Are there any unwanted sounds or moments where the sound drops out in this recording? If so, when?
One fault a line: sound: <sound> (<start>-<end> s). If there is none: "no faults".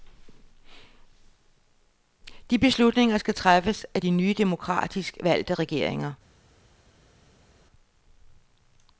no faults